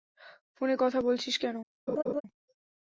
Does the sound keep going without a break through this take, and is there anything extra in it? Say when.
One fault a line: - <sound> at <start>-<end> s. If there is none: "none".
- laugh at 1.9-2.2 s